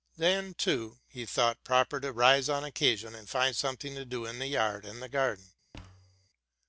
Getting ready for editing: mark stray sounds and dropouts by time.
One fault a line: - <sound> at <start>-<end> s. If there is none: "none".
- thud at 5.7-6.3 s